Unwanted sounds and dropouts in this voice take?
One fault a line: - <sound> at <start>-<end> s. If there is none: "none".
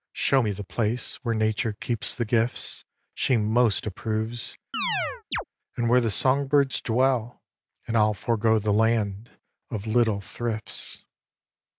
- chirp at 4.7-5.4 s